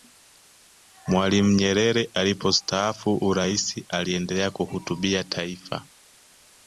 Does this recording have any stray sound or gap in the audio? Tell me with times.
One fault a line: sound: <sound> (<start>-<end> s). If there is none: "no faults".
no faults